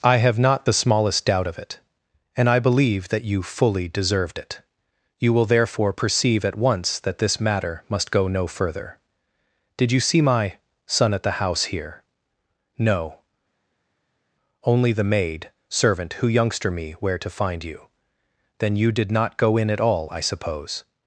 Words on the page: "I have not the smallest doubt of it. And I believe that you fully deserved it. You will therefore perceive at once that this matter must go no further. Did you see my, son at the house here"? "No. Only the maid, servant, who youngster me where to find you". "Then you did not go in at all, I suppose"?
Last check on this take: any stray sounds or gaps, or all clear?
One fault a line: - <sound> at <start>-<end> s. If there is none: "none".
none